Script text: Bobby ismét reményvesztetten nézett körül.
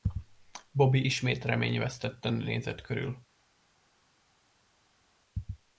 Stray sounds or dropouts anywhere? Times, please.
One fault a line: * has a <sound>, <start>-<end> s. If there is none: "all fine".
all fine